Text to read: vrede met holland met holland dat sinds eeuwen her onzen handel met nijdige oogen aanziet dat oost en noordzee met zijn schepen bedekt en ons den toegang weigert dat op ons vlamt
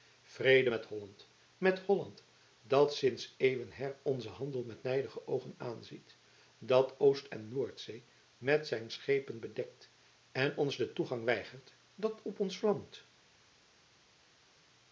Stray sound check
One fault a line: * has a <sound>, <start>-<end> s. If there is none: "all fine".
all fine